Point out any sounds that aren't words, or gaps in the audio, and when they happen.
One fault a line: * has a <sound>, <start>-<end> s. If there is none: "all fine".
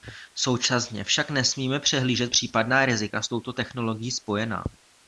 all fine